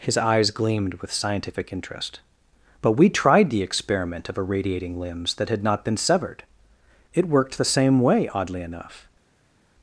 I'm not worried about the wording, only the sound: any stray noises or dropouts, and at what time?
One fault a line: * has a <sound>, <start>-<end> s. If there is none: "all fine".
all fine